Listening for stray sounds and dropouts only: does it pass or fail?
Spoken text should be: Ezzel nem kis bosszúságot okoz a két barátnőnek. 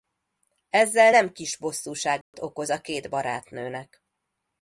fail